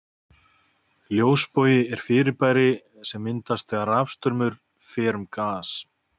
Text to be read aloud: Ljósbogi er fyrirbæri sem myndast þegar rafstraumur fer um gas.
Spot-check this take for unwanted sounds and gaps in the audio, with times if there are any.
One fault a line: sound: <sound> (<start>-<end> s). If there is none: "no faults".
no faults